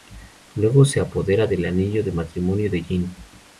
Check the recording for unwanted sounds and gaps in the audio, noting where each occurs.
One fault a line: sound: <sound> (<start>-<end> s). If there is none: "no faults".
no faults